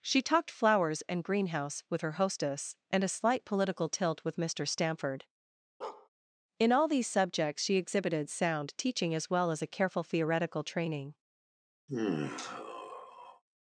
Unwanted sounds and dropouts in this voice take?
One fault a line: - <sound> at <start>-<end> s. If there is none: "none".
- bark at 5.8-6.1 s
- sigh at 11.9-13.4 s